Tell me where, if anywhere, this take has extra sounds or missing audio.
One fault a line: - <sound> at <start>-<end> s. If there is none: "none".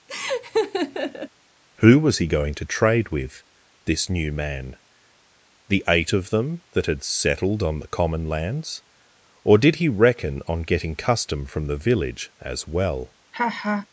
- laugh at 0.1-1.3 s
- laugh at 13.3-13.9 s